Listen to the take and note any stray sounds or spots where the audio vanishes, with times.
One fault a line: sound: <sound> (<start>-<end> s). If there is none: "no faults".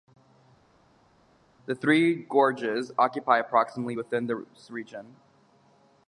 no faults